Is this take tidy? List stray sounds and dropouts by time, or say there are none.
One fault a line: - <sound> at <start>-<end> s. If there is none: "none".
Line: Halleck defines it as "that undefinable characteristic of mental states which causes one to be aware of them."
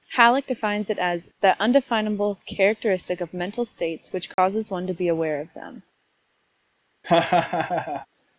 - dropout at 4.3-4.4 s
- laugh at 7.0-8.1 s